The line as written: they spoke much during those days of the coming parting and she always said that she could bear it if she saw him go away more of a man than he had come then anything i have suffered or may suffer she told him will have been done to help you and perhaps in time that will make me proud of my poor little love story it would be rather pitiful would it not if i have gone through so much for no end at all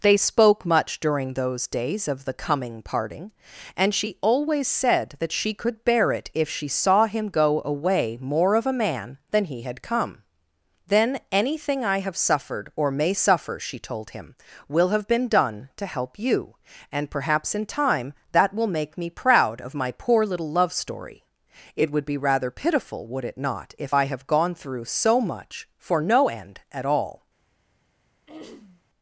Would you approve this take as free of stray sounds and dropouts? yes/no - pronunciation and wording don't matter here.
no